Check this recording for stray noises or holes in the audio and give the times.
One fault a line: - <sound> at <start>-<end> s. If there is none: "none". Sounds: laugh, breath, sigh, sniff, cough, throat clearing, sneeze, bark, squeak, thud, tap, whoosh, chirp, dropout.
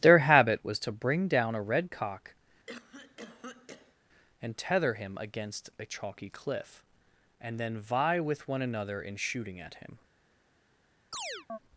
- cough at 2.7-4.0 s
- chirp at 11.1-11.6 s